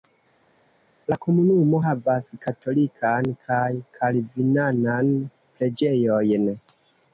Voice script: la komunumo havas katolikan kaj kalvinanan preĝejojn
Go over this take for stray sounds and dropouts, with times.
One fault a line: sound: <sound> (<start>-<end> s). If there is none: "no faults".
no faults